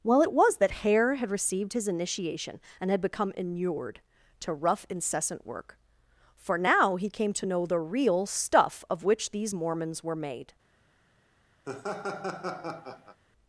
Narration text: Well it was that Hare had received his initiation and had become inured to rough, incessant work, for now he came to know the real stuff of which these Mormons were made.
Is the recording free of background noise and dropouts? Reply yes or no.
no